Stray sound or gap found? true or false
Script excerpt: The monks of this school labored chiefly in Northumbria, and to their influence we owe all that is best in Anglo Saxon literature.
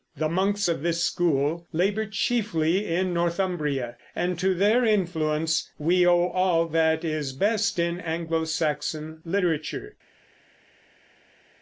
false